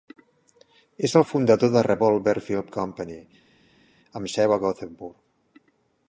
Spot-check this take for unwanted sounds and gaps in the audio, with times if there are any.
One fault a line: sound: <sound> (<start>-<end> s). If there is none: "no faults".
no faults